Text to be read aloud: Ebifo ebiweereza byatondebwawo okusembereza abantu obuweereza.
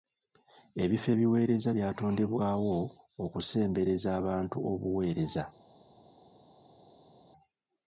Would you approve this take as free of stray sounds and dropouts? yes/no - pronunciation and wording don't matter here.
yes